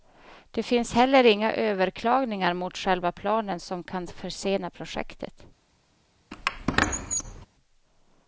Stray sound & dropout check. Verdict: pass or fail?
fail